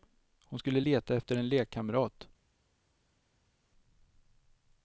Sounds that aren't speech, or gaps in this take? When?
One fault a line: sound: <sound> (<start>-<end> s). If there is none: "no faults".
no faults